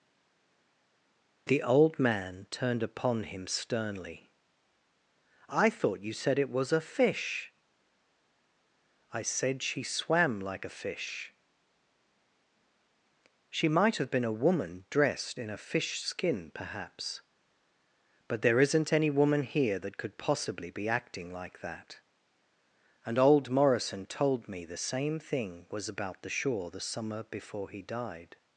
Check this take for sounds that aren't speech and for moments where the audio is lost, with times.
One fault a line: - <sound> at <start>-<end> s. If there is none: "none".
none